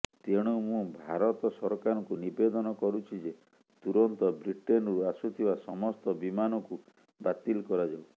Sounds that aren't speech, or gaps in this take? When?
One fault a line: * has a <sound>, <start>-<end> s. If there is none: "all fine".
all fine